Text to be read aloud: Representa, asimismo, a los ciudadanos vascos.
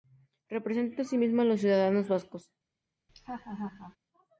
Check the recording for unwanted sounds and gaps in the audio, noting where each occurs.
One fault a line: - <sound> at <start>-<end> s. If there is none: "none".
- laugh at 3.1-4.0 s